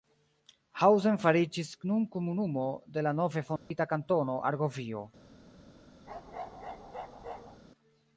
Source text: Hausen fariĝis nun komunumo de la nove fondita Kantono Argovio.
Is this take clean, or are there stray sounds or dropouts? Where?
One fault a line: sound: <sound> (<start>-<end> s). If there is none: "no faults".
sound: dropout (3.6-3.7 s)
sound: bark (6.1-7.6 s)